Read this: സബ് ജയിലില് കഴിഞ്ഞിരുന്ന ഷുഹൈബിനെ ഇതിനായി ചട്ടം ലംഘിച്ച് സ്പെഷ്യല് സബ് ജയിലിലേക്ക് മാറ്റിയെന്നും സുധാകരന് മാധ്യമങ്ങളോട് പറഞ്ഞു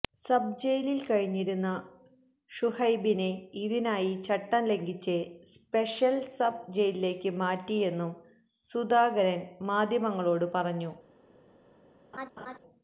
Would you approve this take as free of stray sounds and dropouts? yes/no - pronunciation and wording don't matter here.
no